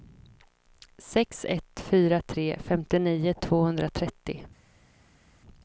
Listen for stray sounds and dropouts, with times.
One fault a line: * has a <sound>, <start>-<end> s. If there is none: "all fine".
all fine